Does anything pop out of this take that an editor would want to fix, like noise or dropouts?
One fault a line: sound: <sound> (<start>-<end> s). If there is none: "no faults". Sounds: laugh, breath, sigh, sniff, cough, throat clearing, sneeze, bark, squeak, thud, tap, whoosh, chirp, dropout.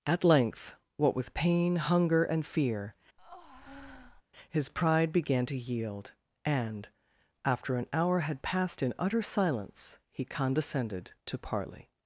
sound: breath (3.2-4.2 s)